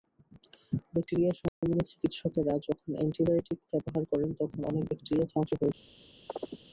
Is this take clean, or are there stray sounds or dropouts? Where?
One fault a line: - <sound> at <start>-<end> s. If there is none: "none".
- dropout at 1.5-1.6 s
- chirp at 6.3-6.6 s